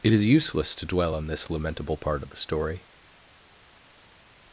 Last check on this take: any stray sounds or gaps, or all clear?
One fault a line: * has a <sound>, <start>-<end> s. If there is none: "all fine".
all fine